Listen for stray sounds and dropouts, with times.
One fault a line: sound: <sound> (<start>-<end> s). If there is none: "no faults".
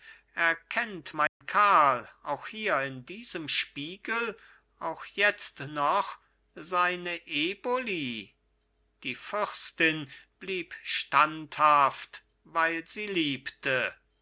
sound: dropout (1.3-1.4 s)